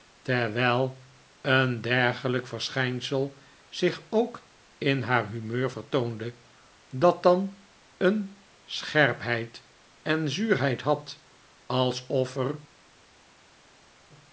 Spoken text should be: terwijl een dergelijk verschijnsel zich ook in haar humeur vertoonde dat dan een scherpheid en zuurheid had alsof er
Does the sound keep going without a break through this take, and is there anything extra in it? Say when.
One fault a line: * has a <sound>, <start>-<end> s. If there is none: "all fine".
all fine